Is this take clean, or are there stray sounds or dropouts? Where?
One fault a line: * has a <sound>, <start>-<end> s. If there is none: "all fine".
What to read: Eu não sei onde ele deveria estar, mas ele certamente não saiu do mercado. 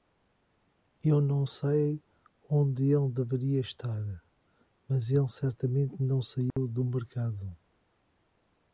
* has a dropout, 6.5-6.6 s